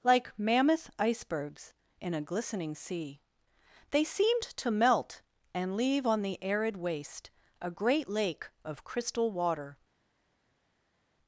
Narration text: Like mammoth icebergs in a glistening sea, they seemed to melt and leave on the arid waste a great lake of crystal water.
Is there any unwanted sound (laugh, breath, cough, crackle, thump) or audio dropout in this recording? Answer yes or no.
no